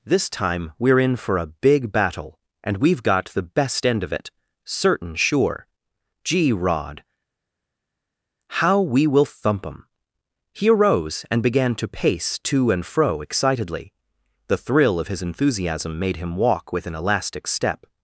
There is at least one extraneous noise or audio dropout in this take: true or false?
false